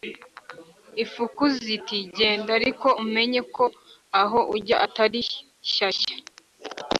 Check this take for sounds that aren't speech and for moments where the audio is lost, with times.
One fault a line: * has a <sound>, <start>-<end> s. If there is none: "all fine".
all fine